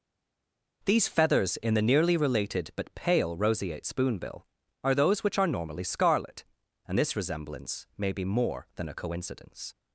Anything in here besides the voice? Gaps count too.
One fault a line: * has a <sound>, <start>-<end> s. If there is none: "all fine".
all fine